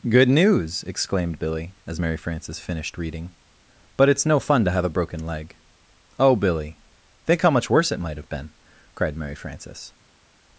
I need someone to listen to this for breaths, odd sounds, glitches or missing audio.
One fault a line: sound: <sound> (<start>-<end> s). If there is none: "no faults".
no faults